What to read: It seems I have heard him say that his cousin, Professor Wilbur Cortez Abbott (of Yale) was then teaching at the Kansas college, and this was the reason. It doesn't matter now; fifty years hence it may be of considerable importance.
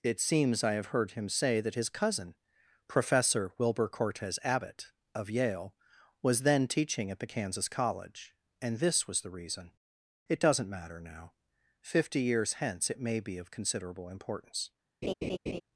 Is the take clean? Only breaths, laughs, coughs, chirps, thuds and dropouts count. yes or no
no